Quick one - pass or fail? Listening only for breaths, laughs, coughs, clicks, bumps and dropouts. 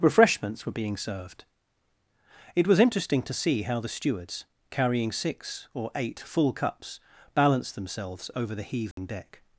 fail